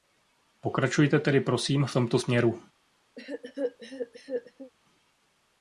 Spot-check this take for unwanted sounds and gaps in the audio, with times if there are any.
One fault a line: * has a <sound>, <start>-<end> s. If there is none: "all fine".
* has a cough, 3.2-4.7 s